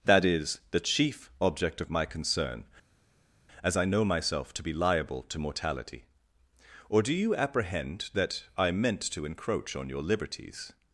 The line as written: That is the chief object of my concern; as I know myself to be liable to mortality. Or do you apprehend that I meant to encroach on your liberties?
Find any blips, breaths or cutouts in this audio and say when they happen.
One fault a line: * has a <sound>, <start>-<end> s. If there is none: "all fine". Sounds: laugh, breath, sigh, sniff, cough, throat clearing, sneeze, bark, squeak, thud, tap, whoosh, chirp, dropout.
all fine